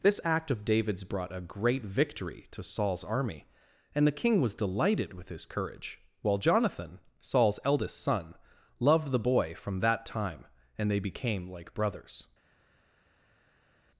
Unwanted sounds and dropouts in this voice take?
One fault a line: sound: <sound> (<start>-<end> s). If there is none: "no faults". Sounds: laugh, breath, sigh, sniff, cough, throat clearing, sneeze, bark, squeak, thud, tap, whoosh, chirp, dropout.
no faults